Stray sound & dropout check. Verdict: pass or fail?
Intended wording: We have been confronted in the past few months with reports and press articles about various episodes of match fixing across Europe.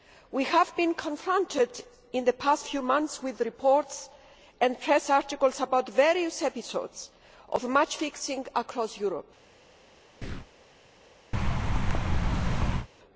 fail